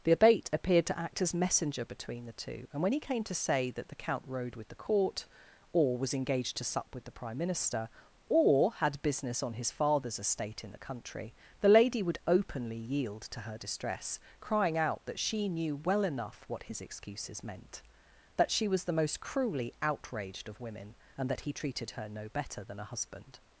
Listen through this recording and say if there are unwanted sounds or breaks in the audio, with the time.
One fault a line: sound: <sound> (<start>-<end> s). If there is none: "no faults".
no faults